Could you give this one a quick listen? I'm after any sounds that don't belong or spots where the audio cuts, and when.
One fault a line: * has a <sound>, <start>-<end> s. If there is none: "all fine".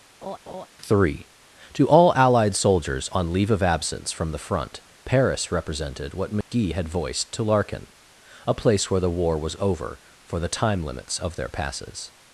* has a laugh, 0.2-0.7 s
* has a dropout, 6.4-6.5 s